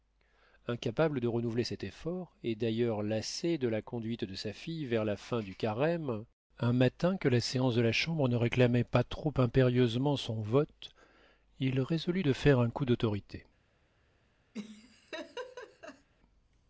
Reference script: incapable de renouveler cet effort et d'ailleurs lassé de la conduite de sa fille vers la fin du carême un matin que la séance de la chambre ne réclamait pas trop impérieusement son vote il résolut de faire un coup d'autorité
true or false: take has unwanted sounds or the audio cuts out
true